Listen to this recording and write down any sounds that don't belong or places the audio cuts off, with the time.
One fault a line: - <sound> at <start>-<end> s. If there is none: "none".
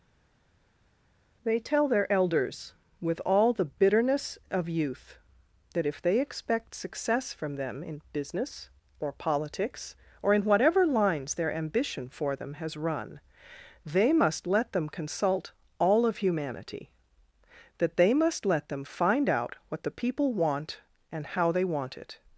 none